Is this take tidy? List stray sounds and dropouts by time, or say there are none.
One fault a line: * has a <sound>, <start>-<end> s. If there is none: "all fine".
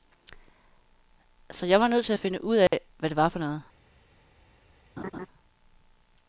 * has a dropout, 2.7-2.7 s
* has a laugh, 5.0-5.3 s